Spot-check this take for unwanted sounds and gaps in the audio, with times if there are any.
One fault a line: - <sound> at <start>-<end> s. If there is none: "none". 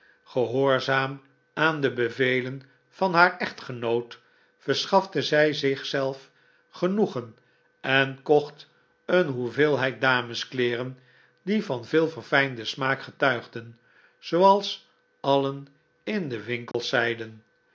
- dropout at 16.7-16.7 s